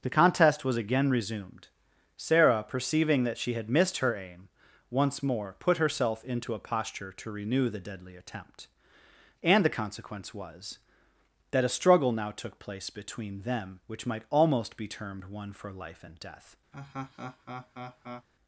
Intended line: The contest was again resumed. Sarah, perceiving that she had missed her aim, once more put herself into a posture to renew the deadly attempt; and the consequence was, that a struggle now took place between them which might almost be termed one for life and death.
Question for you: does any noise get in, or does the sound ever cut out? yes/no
yes